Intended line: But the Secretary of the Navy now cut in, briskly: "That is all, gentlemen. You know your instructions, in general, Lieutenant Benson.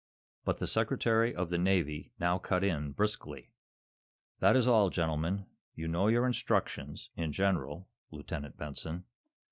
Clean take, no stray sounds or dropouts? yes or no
yes